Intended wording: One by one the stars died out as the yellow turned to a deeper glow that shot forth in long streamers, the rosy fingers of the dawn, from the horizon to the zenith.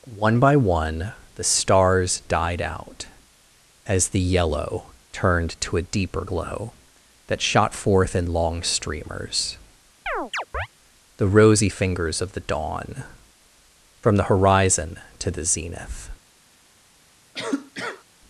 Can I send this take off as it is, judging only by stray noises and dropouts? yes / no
no